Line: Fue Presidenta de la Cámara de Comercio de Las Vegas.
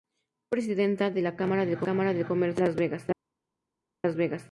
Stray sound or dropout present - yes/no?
no